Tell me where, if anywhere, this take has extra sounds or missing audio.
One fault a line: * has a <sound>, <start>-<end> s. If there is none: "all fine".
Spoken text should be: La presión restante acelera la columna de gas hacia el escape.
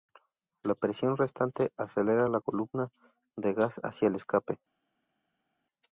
all fine